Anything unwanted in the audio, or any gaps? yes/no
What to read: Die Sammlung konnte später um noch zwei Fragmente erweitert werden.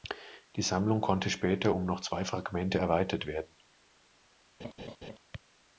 yes